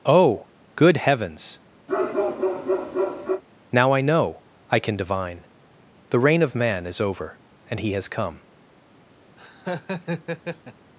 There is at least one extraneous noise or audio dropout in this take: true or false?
true